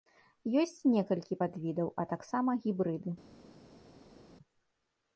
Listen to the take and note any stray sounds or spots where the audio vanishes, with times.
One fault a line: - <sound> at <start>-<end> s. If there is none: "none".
none